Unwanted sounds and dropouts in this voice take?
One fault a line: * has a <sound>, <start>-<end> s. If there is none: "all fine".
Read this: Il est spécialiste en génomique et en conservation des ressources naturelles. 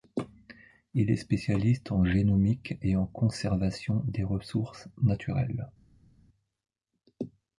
all fine